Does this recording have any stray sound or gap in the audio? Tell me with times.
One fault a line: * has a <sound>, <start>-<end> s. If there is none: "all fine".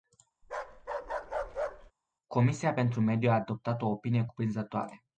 * has a bark, 0.4-1.9 s